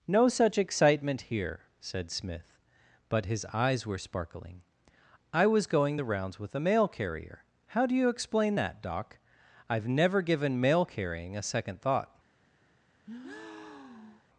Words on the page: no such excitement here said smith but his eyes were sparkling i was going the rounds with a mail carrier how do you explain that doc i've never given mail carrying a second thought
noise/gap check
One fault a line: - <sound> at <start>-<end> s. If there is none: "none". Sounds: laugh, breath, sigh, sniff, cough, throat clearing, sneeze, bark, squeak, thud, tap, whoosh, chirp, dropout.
- breath at 13.0-14.3 s